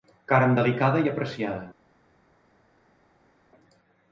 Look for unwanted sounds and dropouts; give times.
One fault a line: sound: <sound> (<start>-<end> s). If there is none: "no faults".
no faults